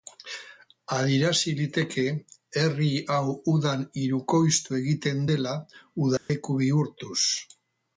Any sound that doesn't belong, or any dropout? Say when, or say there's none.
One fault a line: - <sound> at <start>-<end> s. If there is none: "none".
- dropout at 6.2-6.3 s